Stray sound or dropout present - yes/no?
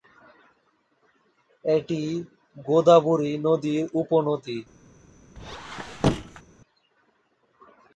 yes